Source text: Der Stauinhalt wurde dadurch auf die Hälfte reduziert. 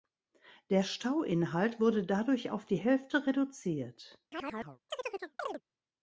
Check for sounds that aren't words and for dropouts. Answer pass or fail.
fail